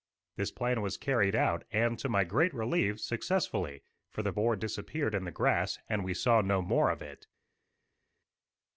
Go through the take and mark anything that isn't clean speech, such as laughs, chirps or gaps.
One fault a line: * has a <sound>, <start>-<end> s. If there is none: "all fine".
all fine